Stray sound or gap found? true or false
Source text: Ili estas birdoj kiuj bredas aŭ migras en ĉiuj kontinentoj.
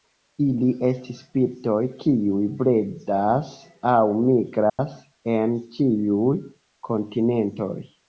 true